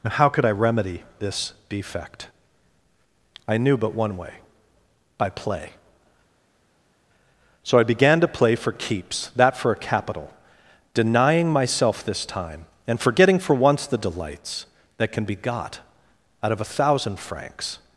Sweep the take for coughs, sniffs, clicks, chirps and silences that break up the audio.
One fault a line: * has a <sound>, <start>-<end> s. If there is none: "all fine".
all fine